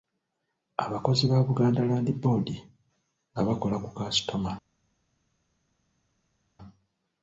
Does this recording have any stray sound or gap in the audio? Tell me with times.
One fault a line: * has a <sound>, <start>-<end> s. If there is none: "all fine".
all fine